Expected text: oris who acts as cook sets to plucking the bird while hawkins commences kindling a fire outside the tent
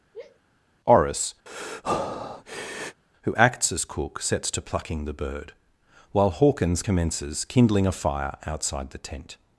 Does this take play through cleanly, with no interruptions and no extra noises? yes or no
no